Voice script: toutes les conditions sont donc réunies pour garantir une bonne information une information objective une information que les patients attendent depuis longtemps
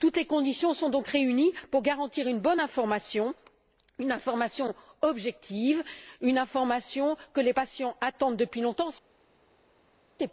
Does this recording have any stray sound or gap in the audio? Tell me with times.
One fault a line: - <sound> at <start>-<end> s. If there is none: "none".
none